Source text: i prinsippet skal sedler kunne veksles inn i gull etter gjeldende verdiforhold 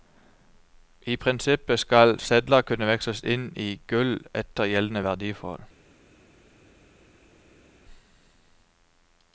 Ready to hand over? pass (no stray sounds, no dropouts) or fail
pass